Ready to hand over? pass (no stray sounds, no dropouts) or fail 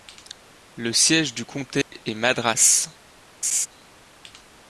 fail